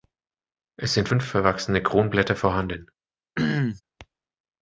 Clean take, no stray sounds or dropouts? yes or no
no